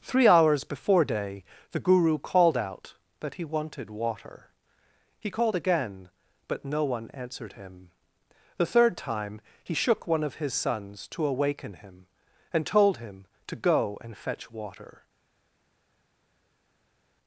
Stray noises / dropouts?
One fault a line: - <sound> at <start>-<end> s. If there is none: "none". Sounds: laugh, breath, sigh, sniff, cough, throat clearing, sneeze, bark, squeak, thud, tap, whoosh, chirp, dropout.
none